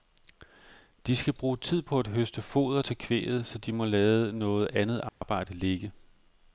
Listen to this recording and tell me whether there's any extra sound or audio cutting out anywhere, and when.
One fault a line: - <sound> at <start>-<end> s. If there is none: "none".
- dropout at 5.1-5.2 s